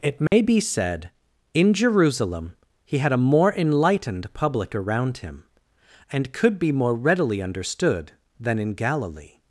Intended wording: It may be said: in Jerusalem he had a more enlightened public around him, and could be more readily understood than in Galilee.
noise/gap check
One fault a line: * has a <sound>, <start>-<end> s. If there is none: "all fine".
* has a dropout, 0.3-0.3 s